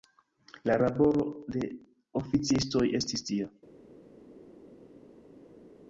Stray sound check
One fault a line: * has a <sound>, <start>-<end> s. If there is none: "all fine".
all fine